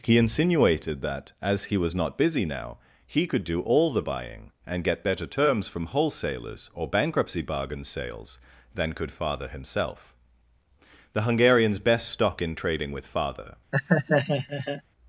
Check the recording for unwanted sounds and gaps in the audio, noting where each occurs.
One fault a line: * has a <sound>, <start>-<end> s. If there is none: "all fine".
* has a laugh, 13.7-14.8 s